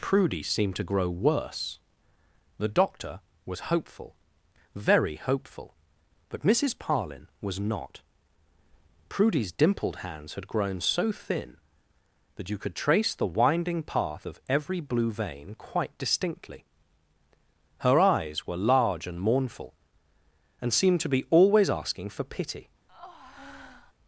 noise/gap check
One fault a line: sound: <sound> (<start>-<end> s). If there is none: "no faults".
sound: breath (22.9-23.9 s)